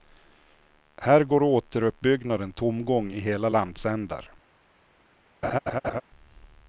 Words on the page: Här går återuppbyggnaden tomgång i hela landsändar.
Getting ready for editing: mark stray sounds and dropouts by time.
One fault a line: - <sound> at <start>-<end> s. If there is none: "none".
- laugh at 5.4-6.0 s